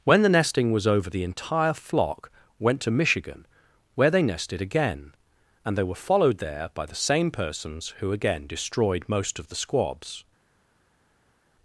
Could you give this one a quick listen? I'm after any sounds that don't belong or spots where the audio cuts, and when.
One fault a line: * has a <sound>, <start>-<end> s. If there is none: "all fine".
all fine